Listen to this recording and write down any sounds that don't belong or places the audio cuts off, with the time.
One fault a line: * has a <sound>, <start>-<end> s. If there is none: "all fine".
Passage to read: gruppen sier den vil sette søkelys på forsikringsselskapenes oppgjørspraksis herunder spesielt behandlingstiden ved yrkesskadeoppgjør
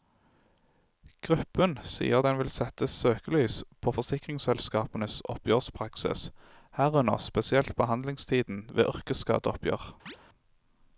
* has a chirp, 10.1-10.2 s